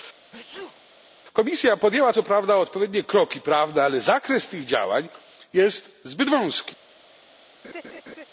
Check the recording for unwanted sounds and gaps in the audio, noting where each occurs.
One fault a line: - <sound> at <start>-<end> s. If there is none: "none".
- sneeze at 0.3-0.9 s
- laugh at 7.6-8.3 s